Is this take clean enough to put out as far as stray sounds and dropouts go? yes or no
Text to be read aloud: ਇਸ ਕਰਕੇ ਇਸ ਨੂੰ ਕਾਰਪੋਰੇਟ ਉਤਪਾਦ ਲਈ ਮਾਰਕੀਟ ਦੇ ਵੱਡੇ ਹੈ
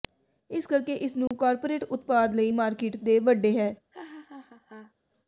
no